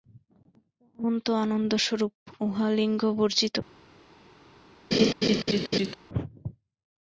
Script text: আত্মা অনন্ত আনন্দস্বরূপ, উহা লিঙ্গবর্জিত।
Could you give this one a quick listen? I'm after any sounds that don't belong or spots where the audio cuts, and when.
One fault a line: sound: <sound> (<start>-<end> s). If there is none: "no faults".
sound: laugh (4.9-5.9 s)